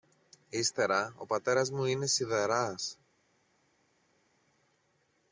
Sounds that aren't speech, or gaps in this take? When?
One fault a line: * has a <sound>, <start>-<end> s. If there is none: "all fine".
all fine